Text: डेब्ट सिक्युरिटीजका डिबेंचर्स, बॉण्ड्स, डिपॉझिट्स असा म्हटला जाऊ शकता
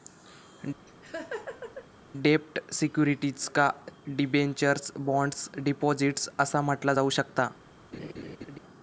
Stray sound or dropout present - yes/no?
yes